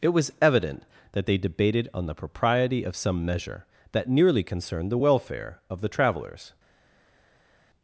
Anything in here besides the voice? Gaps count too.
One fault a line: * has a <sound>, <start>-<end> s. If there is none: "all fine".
all fine